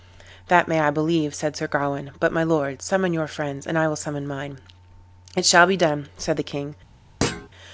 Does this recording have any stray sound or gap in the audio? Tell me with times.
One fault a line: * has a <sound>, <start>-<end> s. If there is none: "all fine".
* has a thud, 7.2-7.5 s